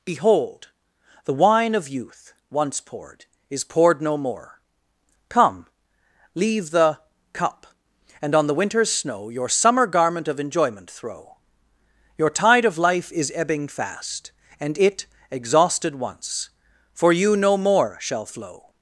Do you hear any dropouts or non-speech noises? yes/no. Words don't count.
no